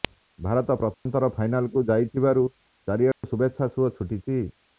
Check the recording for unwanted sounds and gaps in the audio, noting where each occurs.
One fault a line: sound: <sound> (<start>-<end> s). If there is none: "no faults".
sound: dropout (0.9-1.1 s)
sound: dropout (3.1-3.2 s)